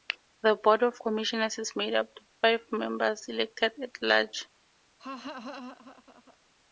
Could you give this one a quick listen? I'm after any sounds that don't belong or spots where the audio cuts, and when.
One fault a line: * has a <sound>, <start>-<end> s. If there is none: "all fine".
* has a laugh, 5.0-6.4 s